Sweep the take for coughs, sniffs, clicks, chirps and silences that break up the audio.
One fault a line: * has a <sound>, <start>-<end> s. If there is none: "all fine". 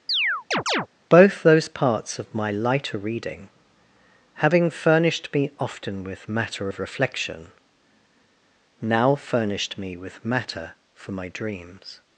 * has a chirp, 0.1-0.9 s